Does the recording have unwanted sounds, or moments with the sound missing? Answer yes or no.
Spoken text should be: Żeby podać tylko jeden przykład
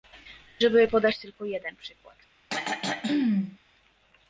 yes